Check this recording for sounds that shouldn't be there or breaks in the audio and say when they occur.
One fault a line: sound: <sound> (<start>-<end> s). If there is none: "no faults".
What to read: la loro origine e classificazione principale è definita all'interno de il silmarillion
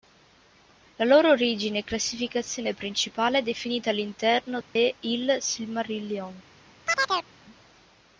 sound: dropout (4.6-4.8 s)
sound: chirp (6.9-7.3 s)